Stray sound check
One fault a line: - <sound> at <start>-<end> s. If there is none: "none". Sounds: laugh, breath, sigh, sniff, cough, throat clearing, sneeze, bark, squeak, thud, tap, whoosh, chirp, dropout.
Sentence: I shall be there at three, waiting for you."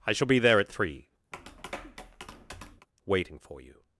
- tap at 1.3-2.9 s